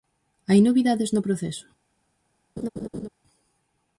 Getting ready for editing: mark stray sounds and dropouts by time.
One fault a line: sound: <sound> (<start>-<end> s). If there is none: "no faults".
sound: laugh (2.6-3.1 s)